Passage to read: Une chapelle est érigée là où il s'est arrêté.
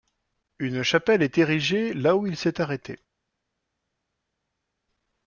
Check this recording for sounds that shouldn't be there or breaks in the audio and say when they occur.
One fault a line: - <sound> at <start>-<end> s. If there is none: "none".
none